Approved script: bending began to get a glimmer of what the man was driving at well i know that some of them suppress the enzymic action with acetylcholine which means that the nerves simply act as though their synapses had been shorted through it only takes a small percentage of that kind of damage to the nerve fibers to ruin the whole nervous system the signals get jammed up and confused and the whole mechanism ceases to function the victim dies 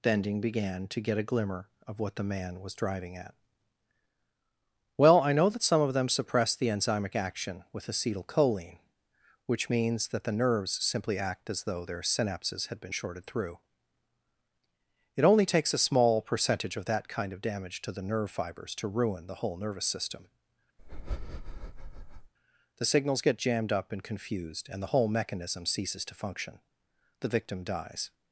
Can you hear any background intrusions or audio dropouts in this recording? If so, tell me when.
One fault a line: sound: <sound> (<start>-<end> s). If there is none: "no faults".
sound: breath (20.8-22.3 s)